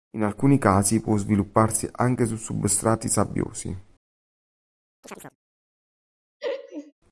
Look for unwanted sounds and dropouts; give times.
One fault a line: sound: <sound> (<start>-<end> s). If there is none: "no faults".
sound: chirp (5.0-5.4 s)
sound: laugh (6.4-6.9 s)